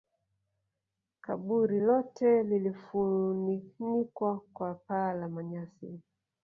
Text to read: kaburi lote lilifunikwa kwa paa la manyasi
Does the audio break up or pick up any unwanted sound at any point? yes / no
no